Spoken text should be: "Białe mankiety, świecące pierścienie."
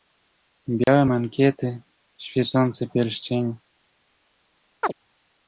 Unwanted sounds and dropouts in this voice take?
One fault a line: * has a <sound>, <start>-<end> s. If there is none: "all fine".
* has a dropout, 0.8-0.9 s
* has a chirp, 4.8-4.9 s